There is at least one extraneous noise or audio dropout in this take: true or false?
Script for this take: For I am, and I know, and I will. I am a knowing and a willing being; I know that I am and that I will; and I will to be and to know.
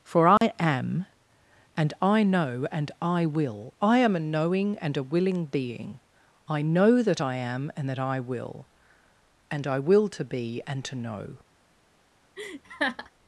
true